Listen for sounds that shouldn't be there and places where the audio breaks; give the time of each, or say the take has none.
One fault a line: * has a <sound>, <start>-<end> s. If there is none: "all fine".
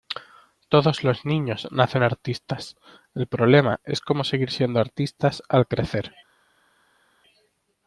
all fine